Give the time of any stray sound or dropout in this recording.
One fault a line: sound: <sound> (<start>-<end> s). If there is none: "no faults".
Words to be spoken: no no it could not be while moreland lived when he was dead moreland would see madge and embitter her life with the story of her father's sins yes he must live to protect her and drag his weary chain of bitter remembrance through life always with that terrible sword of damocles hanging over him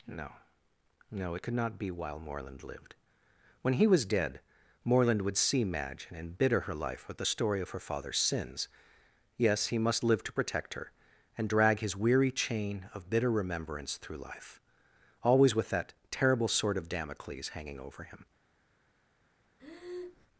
sound: breath (19.6-20.3 s)